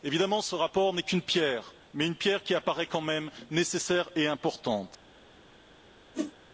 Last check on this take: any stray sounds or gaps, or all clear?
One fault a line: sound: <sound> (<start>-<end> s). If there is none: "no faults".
sound: whoosh (6.1-6.3 s)